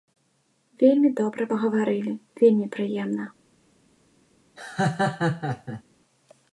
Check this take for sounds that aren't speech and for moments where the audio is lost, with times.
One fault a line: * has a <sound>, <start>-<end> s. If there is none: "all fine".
* has a laugh, 4.6-5.8 s